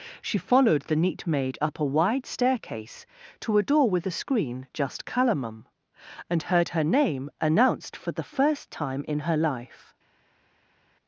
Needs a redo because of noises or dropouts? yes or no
no